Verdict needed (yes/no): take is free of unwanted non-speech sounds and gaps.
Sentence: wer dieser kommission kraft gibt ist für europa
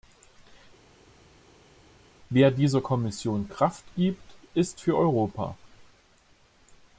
yes